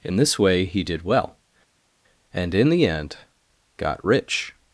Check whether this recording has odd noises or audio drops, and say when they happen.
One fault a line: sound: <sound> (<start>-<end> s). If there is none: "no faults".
no faults